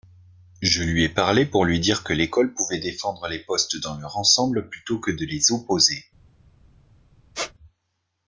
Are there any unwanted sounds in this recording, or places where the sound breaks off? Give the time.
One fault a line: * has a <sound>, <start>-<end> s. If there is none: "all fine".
* has a squeak, 7.3-7.5 s